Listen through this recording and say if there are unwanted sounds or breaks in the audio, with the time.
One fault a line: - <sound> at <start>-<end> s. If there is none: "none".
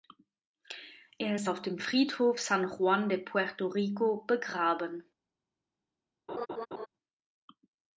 - laugh at 6.3-6.9 s